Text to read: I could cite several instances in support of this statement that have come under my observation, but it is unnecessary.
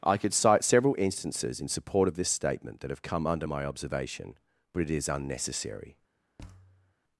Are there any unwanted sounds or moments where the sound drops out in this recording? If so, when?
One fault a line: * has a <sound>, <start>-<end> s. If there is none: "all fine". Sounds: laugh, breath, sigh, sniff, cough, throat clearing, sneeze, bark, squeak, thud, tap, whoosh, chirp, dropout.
* has a thud, 6.4-6.9 s